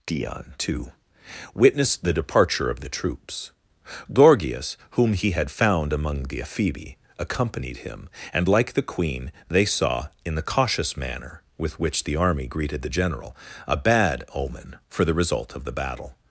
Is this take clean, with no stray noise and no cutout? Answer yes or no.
yes